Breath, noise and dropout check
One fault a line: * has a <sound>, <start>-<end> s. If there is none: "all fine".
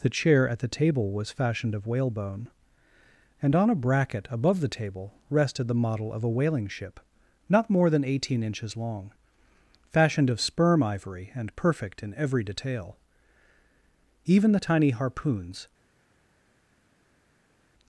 all fine